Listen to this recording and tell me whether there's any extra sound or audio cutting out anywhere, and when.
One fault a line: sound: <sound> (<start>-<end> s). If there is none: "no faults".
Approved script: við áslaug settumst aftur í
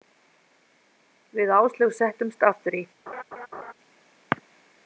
sound: laugh (3.1-3.7 s)